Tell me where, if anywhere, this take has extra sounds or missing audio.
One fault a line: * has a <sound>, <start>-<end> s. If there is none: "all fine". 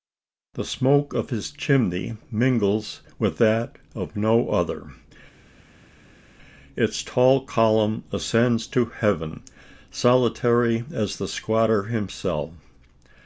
all fine